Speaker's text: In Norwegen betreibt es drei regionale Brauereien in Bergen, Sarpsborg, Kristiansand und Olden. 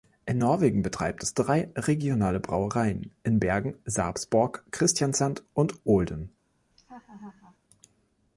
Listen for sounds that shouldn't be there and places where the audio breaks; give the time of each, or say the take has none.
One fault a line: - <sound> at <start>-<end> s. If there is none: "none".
- laugh at 6.7-7.6 s